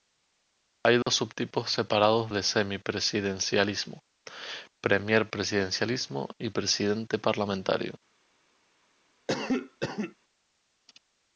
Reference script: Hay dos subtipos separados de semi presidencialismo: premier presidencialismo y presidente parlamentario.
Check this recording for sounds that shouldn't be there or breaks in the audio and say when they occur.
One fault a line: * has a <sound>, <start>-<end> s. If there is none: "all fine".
* has a dropout, 1.0-1.1 s
* has a cough, 9.3-10.2 s